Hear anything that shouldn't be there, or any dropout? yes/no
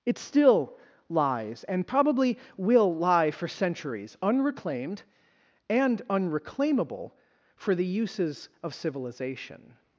no